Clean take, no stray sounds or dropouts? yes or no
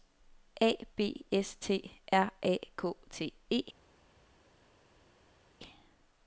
yes